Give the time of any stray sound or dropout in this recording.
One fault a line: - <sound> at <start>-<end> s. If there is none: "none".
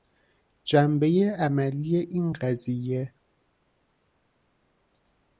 none